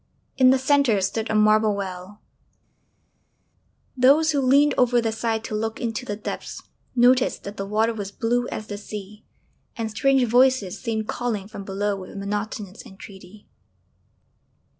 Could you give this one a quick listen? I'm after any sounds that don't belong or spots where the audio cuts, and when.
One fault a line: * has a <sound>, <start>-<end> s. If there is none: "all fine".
all fine